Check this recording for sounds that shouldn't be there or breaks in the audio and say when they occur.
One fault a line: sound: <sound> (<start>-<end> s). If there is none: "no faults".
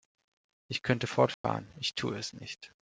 sound: dropout (1.3-1.4 s)